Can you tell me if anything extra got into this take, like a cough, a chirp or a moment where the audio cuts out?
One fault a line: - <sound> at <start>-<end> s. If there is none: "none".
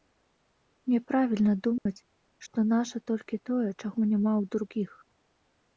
- dropout at 1.8-1.9 s